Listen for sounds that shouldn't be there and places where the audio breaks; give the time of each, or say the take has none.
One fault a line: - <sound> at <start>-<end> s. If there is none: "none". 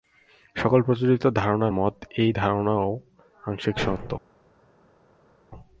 none